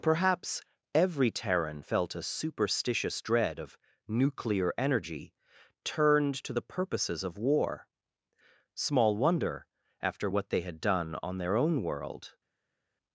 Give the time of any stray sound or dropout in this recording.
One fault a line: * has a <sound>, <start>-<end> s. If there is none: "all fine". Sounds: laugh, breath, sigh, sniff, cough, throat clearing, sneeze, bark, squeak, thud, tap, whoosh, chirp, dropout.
all fine